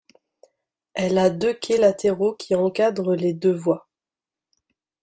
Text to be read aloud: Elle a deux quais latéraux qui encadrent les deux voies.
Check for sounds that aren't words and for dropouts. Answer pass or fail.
pass